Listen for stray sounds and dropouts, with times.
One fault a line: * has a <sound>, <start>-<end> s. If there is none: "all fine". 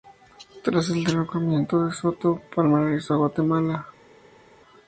all fine